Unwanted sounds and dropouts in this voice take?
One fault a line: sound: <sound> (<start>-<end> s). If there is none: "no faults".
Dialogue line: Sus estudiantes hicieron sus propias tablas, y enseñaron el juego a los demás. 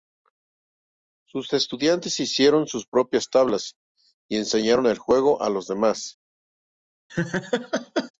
sound: laugh (7.1-8.1 s)